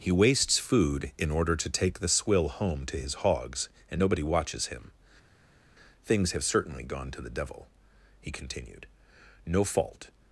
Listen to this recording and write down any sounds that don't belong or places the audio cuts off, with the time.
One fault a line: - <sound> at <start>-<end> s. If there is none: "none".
none